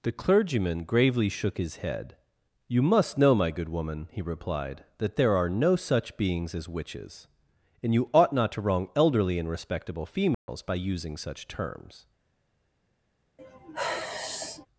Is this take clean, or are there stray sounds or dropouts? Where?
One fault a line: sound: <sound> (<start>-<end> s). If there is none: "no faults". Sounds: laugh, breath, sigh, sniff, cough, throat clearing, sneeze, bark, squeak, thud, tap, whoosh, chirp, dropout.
sound: dropout (10.3-10.5 s)
sound: sigh (13.4-14.7 s)